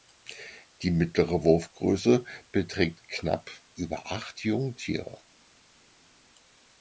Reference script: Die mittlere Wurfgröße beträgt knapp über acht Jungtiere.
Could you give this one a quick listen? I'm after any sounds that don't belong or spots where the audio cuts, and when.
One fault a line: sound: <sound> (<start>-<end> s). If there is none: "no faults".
no faults